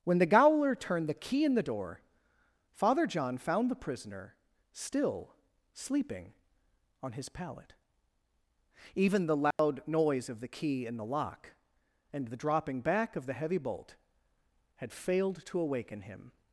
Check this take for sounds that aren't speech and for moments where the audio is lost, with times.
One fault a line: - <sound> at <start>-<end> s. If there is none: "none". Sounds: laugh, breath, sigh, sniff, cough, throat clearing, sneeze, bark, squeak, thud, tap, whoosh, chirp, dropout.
- dropout at 9.5-9.6 s